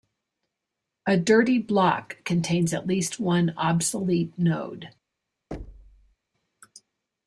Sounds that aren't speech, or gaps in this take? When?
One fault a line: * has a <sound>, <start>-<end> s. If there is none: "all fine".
* has a thud, 5.5-6.2 s